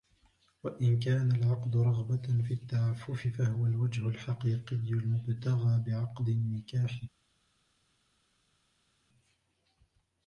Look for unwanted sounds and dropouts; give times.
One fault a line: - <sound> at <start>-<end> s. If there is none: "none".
none